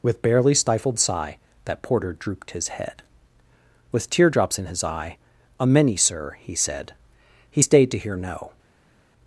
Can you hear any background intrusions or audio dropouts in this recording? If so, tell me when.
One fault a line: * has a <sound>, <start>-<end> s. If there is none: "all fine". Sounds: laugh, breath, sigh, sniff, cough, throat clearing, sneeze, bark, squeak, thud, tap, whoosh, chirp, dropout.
all fine